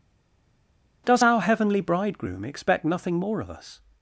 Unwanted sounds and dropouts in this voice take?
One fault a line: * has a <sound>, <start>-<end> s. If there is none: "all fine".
all fine